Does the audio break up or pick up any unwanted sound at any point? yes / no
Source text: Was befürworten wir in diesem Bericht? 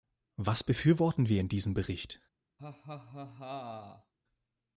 yes